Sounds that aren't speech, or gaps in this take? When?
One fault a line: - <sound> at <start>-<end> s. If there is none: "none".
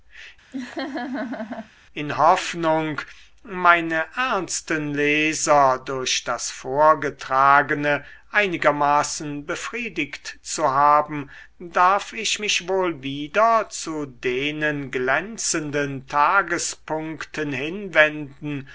- laugh at 0.5-1.7 s